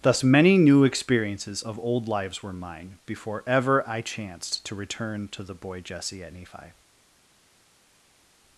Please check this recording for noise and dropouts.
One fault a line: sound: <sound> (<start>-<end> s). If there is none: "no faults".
no faults